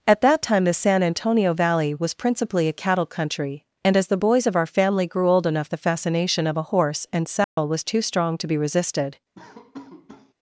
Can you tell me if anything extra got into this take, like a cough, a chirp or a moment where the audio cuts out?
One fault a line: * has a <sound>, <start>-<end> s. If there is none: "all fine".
* has a dropout, 7.4-7.6 s
* has a laugh, 9.3-10.3 s